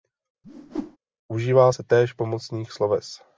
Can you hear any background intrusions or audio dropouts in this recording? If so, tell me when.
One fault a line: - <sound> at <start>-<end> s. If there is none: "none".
- whoosh at 0.4-1.0 s